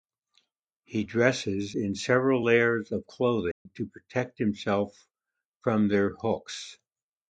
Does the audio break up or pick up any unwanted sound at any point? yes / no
yes